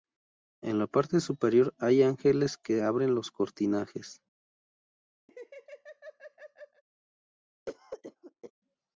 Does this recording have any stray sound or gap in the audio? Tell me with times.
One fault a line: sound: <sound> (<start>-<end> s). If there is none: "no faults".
sound: laugh (5.3-6.8 s)
sound: cough (7.7-8.5 s)